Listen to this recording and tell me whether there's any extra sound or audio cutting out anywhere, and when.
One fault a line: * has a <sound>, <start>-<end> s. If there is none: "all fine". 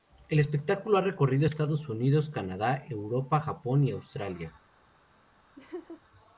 * has a laugh, 5.6-6.0 s